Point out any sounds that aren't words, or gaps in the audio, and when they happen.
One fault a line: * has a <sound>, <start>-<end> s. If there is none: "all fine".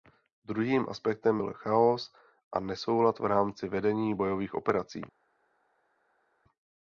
all fine